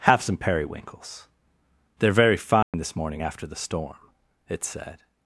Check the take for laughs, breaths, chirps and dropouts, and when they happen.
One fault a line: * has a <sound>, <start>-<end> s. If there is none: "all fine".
* has a dropout, 2.6-2.7 s